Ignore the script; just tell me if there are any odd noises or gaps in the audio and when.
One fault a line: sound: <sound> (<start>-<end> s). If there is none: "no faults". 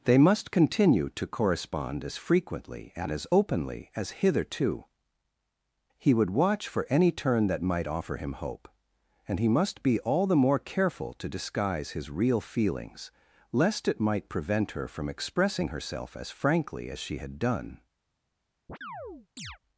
sound: chirp (18.7-19.6 s)